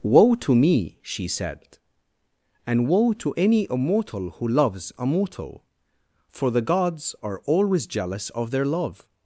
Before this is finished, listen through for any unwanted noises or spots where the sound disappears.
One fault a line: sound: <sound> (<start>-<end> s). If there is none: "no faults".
no faults